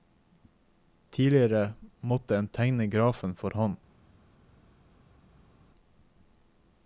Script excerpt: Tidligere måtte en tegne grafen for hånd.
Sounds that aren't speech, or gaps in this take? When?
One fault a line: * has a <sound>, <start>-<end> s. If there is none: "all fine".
all fine